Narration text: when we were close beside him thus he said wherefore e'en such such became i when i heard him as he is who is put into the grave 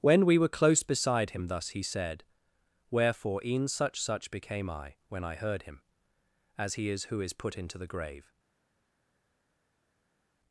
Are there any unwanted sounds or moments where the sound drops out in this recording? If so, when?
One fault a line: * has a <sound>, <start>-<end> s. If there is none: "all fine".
all fine